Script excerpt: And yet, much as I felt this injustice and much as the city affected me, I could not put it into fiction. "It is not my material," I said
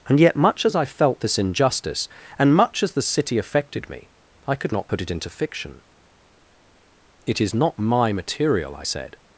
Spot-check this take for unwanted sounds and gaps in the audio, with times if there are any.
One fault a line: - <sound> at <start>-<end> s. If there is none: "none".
none